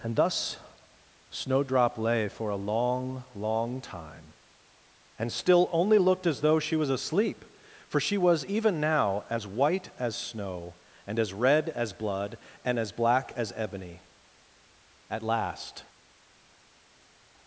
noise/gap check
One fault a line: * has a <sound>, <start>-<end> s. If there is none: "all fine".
all fine